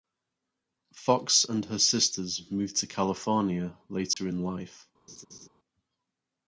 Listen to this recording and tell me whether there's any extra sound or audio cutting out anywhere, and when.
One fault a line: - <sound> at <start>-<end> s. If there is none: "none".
- dropout at 4.1-4.2 s
- laugh at 5.1-5.5 s